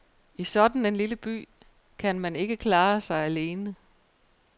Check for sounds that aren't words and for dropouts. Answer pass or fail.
pass